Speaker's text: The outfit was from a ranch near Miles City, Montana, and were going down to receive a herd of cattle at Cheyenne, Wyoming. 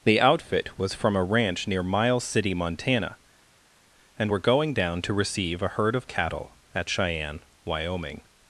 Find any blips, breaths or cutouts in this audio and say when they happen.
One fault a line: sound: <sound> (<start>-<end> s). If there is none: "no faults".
no faults